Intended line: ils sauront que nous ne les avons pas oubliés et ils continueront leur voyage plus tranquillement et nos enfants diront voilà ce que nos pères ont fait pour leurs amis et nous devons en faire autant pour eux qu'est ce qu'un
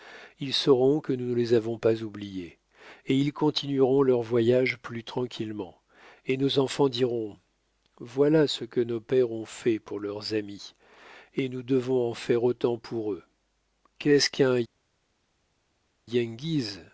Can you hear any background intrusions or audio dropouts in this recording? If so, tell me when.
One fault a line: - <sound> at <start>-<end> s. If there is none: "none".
none